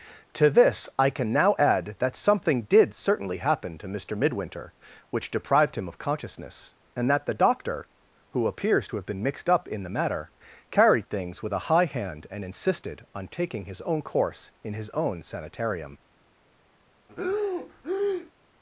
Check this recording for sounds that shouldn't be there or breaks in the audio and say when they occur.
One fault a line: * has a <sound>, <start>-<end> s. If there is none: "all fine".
* has a breath, 17.1-18.3 s